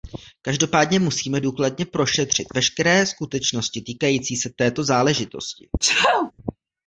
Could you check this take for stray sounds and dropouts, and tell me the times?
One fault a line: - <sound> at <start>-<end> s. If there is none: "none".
- sneeze at 5.8-6.3 s